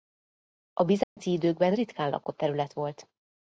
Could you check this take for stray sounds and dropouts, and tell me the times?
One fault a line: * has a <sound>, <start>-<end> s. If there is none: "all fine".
* has a dropout, 1.0-1.2 s